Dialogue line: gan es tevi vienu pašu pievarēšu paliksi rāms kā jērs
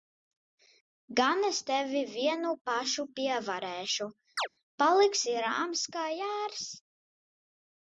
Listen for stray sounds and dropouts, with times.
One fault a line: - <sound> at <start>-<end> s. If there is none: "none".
- chirp at 4.4-4.5 s